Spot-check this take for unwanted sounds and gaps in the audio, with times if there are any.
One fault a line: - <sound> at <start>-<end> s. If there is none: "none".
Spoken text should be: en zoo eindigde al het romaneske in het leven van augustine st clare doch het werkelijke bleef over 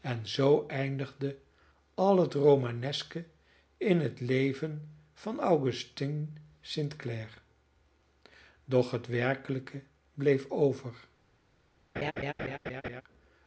- laugh at 11.9-13.0 s